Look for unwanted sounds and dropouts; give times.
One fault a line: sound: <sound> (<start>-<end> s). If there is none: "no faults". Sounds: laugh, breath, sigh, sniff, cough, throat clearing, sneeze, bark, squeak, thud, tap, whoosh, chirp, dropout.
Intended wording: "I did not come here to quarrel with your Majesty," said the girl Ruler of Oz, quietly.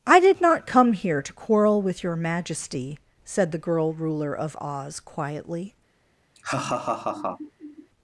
sound: laugh (6.3-7.9 s)